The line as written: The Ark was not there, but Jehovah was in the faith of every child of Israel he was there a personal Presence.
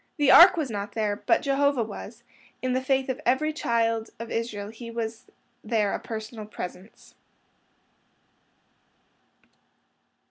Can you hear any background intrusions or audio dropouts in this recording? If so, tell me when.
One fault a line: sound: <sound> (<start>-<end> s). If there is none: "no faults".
no faults